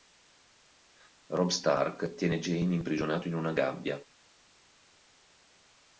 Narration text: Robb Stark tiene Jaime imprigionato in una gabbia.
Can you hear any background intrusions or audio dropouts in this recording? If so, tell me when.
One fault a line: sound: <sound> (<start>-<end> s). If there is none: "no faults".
no faults